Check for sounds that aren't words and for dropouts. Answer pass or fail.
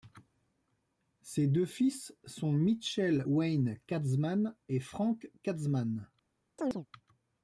fail